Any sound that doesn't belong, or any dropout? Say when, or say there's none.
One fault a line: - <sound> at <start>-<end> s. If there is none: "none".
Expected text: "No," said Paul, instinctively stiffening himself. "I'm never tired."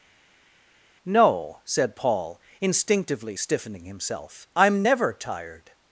none